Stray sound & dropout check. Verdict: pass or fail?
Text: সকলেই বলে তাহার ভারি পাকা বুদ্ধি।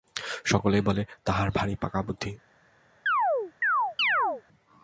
fail